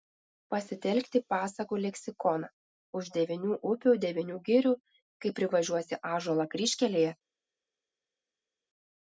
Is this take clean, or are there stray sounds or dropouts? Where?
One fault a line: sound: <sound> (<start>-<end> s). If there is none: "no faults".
no faults